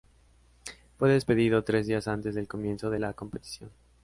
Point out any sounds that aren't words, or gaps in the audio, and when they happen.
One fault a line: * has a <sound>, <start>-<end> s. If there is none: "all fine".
all fine